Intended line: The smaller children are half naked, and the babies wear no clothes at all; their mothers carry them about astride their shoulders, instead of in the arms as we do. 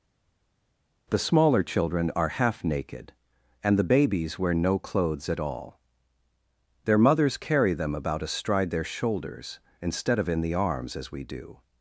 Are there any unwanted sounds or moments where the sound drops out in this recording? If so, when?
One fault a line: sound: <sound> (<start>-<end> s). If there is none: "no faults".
no faults